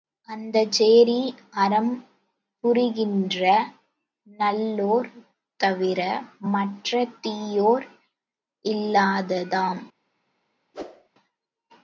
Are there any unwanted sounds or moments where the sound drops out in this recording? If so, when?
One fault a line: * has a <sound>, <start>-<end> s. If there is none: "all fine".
* has a whoosh, 10.7-11.1 s